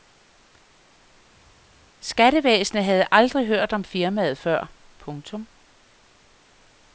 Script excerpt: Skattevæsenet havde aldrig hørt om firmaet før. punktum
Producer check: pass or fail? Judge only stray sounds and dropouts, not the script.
pass